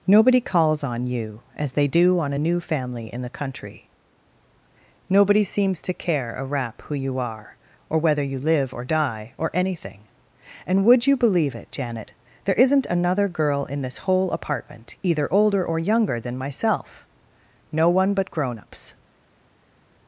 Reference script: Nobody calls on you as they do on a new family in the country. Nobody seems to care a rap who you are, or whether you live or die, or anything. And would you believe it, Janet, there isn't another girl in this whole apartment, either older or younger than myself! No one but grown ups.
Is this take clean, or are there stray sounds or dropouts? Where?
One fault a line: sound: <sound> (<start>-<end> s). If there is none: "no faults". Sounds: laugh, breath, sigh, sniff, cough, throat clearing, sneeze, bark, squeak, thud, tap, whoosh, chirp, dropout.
no faults